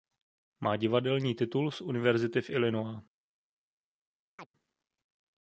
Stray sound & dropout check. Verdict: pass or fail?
fail